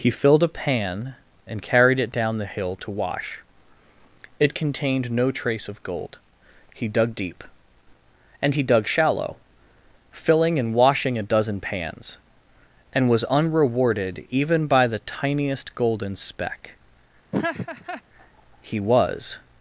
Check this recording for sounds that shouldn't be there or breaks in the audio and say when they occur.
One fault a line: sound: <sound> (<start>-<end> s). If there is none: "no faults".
sound: laugh (17.3-18.0 s)